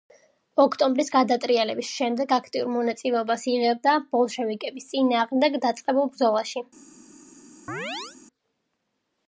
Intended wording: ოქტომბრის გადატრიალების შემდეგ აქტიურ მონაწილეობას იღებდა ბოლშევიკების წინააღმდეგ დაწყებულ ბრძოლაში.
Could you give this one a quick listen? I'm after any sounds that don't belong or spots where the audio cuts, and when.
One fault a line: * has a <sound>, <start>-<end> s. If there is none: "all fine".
* has a chirp, 7.7-8.2 s